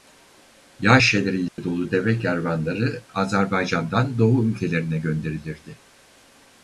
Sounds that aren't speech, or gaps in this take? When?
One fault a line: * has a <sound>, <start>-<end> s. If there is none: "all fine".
* has a dropout, 1.5-1.6 s